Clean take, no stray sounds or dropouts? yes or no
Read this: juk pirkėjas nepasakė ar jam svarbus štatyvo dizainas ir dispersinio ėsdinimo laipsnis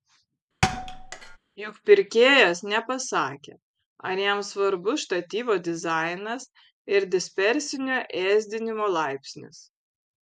no